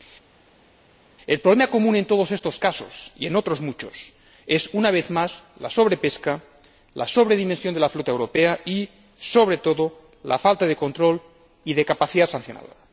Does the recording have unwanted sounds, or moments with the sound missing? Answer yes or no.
no